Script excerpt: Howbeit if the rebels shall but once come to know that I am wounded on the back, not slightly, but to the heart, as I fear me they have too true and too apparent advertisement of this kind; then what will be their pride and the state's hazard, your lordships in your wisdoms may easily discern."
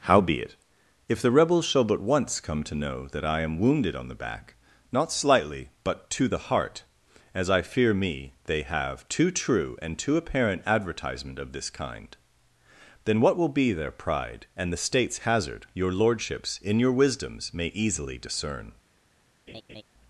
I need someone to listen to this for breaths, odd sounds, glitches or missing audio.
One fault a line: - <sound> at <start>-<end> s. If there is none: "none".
- laugh at 19.5-19.8 s